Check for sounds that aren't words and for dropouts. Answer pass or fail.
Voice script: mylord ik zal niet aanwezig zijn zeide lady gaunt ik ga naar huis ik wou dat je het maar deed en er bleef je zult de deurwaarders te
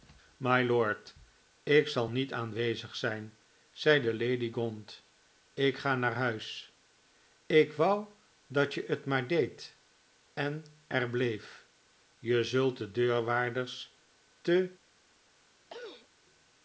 fail